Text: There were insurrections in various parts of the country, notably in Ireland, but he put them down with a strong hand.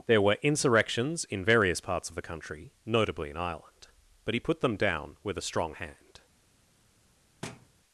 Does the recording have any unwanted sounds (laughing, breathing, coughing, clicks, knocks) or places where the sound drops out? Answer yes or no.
yes